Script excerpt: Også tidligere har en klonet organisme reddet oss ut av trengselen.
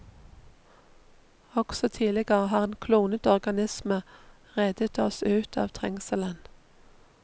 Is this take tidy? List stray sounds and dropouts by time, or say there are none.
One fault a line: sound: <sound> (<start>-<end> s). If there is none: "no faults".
no faults